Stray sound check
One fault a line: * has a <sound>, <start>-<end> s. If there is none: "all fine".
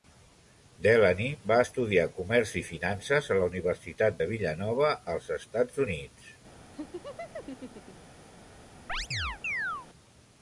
* has a laugh, 6.7-8.2 s
* has a chirp, 8.9-9.9 s